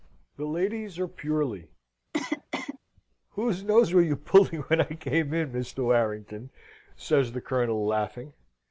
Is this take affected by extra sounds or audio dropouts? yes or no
yes